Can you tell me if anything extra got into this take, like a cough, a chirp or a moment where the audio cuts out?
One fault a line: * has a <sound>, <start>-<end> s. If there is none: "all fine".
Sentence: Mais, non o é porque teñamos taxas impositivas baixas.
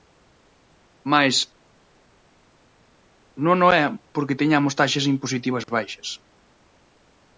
all fine